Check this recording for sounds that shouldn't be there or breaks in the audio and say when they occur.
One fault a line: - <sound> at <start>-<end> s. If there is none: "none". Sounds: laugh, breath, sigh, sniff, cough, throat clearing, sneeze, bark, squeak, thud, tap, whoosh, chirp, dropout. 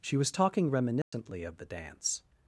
- dropout at 1.0-1.1 s